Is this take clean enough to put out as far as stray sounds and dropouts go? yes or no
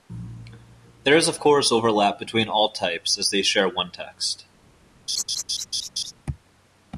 no